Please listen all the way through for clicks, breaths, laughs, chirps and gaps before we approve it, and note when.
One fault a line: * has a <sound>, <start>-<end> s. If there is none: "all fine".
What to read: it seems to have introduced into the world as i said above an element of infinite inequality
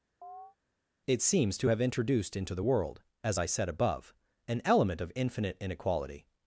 * has a chirp, 0.2-0.6 s